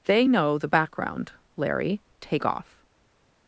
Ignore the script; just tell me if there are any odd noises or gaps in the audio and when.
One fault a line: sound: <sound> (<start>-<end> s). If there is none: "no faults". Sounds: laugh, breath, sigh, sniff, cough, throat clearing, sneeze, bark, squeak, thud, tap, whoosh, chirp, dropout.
no faults